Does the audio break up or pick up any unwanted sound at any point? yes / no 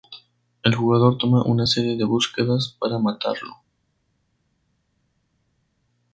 no